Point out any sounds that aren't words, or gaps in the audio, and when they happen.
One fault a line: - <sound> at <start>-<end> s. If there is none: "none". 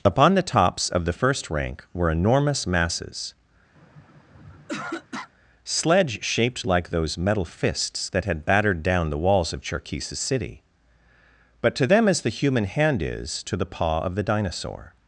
- throat clearing at 3.8-5.3 s